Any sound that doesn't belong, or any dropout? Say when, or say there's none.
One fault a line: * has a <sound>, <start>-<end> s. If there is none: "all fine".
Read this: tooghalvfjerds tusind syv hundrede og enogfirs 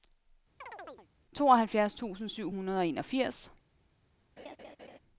* has a chirp, 0.6-1.1 s
* has a laugh, 4.4-5.0 s